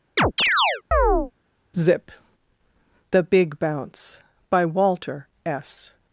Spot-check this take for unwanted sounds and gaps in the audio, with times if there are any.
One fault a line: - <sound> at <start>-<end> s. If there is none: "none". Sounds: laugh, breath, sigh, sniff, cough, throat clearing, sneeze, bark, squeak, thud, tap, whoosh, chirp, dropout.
- chirp at 0.2-1.3 s